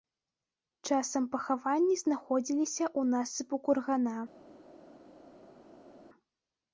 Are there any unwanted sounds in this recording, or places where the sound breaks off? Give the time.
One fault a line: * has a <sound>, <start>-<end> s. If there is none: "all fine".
all fine